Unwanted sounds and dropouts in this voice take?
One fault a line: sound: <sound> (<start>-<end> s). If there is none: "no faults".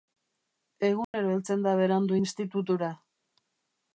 sound: dropout (1.0-1.1 s)